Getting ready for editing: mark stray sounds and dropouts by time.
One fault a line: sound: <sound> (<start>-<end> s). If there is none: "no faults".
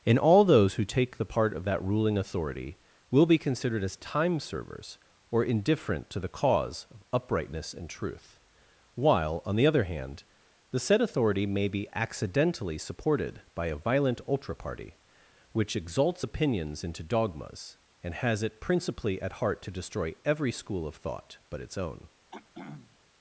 sound: throat clearing (22.3-23.0 s)